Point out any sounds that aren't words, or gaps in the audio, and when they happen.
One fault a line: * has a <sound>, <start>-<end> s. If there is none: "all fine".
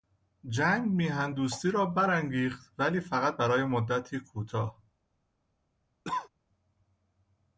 * has a cough, 6.0-6.3 s